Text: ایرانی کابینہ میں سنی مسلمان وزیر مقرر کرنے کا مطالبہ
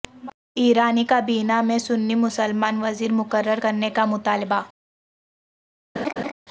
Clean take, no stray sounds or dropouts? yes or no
no